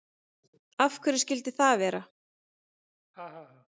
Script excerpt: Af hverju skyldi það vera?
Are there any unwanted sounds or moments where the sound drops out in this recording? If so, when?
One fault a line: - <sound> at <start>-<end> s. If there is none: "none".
- laugh at 3.1-3.7 s